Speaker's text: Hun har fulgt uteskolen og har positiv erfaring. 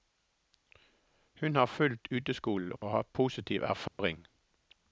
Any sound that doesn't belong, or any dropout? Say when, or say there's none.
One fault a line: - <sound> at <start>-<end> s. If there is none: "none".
- dropout at 2.8-2.8 s
- dropout at 3.9-4.0 s